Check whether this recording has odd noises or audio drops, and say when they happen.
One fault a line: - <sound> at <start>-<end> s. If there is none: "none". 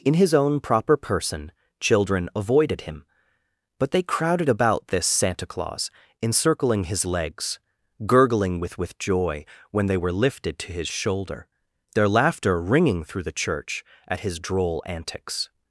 none